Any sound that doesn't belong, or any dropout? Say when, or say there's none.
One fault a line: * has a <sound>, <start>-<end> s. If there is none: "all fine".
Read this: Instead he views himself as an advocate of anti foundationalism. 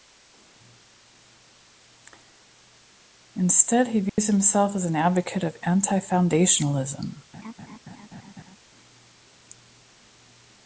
* has a dropout, 4.1-4.2 s
* has a laugh, 7.3-8.6 s